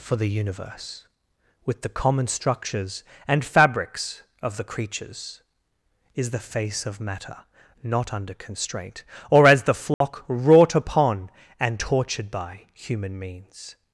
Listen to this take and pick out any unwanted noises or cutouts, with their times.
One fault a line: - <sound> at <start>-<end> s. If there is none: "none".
- dropout at 9.9-10.0 s